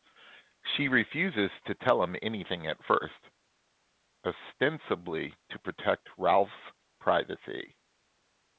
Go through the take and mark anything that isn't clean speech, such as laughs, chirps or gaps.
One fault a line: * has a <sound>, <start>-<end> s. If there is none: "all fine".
all fine